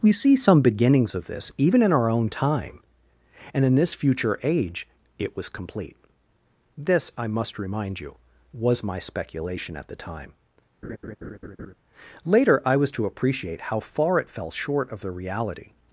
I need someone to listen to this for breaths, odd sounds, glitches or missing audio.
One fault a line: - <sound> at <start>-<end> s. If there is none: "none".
- laugh at 10.8-11.7 s